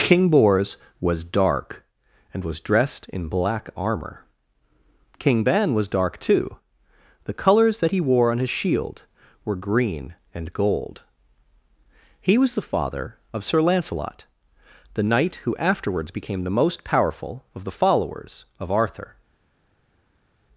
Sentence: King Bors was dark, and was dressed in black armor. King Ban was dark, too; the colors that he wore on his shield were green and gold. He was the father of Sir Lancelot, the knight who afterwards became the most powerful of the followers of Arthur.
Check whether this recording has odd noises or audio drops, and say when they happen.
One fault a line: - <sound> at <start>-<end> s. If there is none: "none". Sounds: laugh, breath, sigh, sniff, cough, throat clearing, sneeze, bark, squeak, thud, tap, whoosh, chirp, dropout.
none